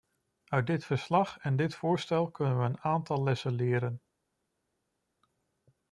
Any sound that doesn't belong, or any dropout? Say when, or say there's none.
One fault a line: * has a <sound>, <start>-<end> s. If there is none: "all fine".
all fine